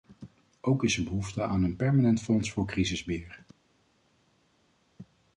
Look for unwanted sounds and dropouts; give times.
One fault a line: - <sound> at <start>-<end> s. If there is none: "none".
none